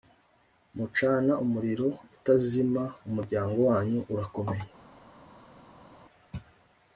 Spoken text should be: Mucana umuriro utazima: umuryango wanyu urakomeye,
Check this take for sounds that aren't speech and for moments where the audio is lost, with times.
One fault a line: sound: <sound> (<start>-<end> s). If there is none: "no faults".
no faults